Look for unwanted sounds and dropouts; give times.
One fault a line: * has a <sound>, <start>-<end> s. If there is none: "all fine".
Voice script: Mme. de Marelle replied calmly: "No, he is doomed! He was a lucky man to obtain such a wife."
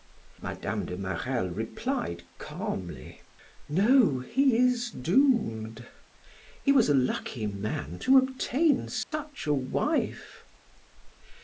* has a dropout, 9.0-9.1 s